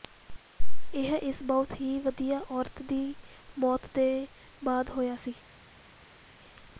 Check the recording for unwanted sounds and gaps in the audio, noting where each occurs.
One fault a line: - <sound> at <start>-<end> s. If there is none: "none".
none